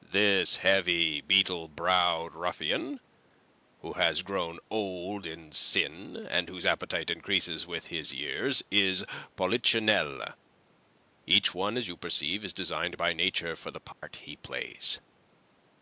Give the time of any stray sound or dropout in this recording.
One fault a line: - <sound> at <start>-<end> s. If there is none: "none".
- dropout at 13.9-14.0 s